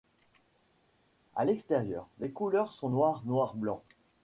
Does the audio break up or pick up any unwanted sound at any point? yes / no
no